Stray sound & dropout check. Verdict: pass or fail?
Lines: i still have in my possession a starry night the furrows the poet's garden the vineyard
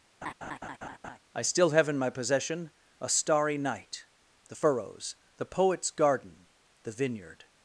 fail